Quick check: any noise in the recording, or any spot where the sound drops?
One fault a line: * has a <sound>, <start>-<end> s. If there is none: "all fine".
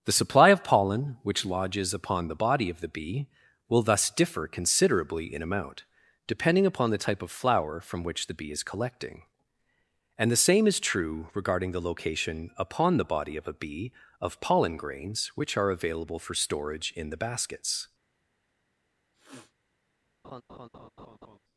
* has a sniff, 19.1-19.5 s
* has a laugh, 20.2-21.4 s